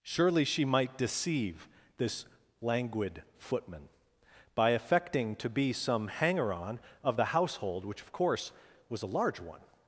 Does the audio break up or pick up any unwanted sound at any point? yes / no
no